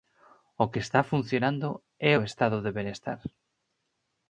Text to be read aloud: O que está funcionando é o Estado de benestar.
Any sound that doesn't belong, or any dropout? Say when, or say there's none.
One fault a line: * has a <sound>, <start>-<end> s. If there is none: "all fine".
all fine